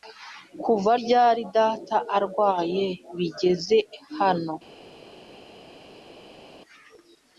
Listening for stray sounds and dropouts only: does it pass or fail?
pass